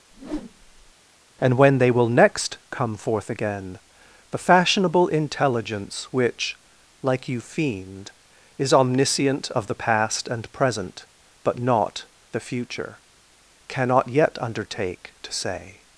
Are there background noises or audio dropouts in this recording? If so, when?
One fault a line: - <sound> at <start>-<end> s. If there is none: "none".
- whoosh at 0.1-0.9 s